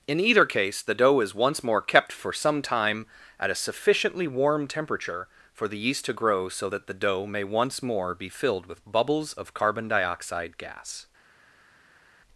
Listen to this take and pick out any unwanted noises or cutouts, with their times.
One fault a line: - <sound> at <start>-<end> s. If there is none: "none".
none